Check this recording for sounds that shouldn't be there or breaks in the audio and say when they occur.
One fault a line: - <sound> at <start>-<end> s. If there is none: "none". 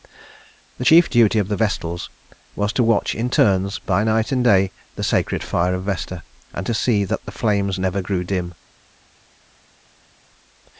none